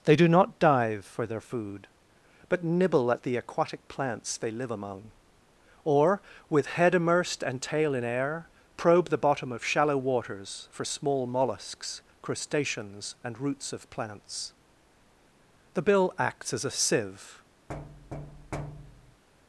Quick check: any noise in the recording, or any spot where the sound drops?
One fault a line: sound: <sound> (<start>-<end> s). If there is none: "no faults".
sound: thud (17.7-19.2 s)